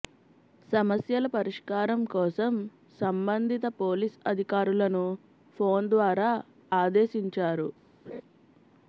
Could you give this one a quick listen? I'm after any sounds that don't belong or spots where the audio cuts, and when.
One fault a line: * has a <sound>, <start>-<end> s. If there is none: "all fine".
* has a laugh, 8.1-8.2 s